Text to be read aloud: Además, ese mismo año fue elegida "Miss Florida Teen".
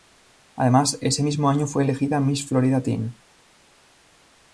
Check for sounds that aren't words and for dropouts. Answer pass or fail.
pass